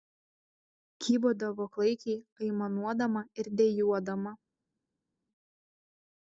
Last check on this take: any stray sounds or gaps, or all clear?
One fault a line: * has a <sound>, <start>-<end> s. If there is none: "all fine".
all fine